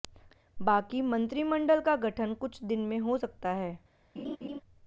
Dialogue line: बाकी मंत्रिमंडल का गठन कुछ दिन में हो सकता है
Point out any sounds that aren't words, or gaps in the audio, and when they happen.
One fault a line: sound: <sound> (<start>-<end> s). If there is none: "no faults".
sound: laugh (4.2-4.6 s)